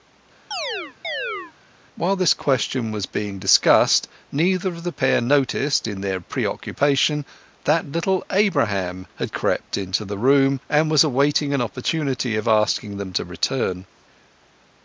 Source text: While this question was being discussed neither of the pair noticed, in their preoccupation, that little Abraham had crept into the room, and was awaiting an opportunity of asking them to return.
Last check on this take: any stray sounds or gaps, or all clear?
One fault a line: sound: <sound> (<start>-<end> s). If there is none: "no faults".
sound: chirp (0.5-1.5 s)